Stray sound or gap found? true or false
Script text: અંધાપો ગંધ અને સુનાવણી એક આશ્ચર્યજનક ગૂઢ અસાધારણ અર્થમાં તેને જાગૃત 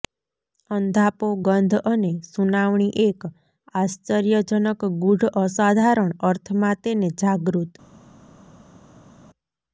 false